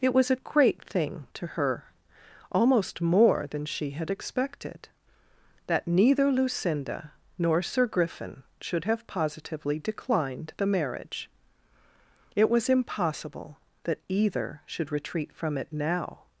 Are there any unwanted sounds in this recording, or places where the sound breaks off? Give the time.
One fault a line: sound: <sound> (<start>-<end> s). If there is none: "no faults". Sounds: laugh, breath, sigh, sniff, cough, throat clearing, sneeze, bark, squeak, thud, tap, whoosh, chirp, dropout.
no faults